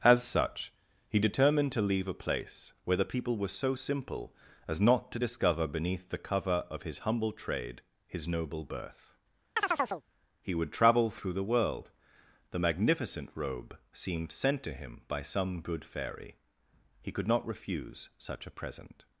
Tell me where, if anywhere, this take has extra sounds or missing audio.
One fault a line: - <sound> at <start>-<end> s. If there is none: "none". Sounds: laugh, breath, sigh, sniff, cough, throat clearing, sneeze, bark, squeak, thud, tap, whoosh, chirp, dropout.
- chirp at 9.6-10.0 s